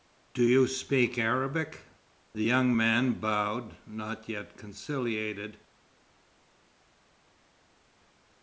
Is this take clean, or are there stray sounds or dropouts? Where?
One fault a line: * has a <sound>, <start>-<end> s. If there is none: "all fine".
all fine